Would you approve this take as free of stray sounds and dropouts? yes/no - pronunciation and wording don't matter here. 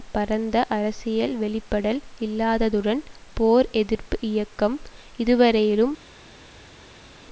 yes